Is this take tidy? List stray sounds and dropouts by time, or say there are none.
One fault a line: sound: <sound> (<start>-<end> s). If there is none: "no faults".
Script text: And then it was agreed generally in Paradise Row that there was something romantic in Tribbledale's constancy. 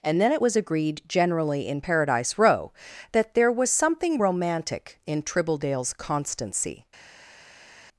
no faults